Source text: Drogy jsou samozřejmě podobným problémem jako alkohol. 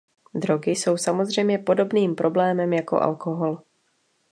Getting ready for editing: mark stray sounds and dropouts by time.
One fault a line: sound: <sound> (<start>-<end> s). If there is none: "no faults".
no faults